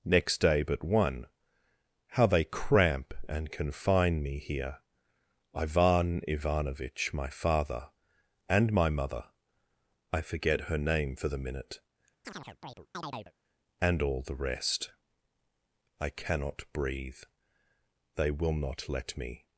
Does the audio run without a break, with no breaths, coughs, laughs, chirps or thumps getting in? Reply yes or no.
no